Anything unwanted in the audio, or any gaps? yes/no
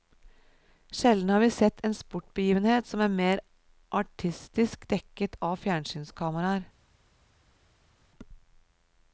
no